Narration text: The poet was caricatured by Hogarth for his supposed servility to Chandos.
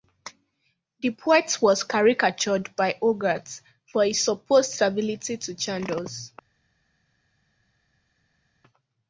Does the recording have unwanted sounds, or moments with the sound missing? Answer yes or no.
no